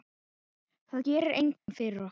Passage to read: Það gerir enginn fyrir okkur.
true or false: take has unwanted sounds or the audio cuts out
true